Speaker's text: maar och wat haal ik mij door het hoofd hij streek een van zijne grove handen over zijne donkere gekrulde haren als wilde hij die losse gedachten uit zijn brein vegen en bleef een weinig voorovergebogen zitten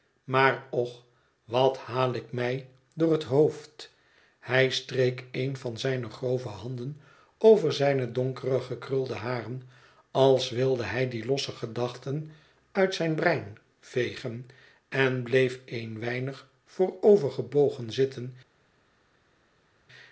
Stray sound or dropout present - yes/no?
no